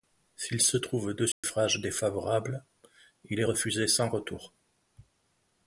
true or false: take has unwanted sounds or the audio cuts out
true